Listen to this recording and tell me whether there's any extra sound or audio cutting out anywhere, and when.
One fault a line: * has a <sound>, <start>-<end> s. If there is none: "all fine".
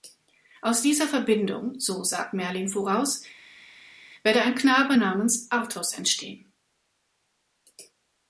all fine